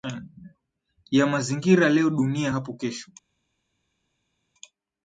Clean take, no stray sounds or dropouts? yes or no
yes